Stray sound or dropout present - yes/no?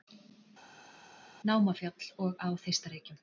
no